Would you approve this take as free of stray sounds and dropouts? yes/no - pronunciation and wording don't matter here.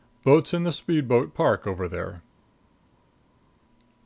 yes